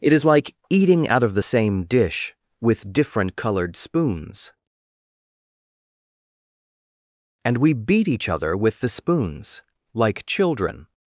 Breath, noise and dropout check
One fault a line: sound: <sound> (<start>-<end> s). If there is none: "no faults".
no faults